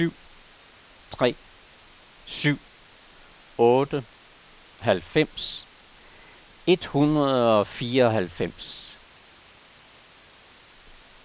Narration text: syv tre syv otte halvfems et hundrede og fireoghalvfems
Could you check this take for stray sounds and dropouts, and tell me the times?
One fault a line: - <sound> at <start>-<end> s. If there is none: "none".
none